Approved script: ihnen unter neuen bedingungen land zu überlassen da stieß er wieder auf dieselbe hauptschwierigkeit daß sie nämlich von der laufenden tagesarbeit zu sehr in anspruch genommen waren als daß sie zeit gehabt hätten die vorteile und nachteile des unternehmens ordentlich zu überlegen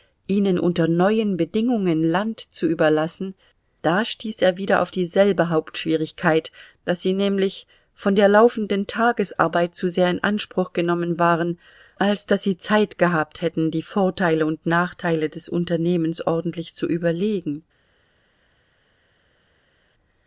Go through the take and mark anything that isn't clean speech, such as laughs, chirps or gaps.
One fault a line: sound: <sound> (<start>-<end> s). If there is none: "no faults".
no faults